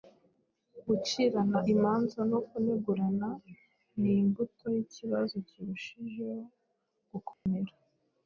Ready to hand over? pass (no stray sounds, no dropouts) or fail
fail